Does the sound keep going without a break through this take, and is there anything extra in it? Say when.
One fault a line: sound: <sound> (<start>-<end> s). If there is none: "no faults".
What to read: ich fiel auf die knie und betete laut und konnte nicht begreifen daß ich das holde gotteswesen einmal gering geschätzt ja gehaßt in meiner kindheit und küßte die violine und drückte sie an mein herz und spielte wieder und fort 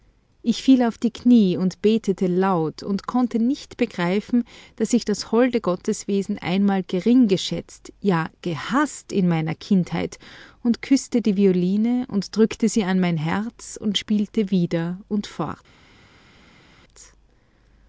no faults